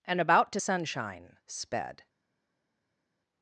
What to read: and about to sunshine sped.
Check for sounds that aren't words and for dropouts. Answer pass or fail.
pass